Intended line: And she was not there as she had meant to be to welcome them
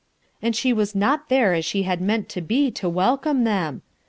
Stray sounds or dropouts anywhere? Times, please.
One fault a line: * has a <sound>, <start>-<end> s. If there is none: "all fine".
all fine